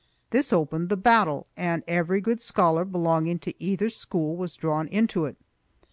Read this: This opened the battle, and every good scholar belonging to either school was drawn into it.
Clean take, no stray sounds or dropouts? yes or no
yes